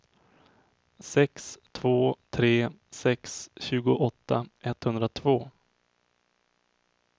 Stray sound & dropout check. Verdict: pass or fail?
pass